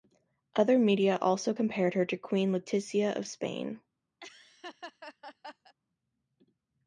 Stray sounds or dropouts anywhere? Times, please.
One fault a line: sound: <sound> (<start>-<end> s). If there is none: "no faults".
sound: laugh (4.2-5.7 s)